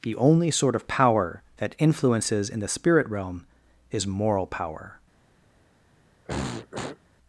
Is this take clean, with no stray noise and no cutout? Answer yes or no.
no